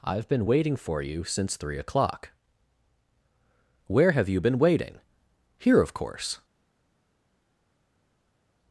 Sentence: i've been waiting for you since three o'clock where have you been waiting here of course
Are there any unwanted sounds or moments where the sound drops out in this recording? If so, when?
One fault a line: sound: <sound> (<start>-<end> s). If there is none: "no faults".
no faults